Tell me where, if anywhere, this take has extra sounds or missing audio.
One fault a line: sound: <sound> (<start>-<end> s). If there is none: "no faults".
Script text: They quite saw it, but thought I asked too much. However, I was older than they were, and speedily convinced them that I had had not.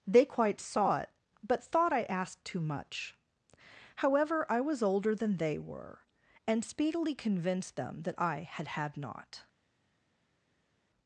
no faults